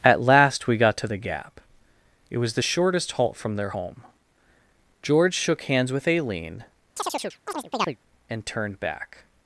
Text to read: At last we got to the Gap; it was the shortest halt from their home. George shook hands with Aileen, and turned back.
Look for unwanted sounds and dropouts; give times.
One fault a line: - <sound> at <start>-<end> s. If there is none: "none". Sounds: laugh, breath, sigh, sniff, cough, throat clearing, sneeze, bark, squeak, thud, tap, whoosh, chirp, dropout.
- chirp at 7.0-8.0 s